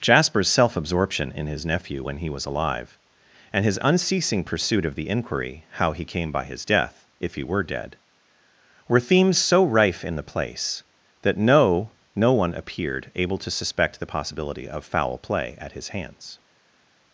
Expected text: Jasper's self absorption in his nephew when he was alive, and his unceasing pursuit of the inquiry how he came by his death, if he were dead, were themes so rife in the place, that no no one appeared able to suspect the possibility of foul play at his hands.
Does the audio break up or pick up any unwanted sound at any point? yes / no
no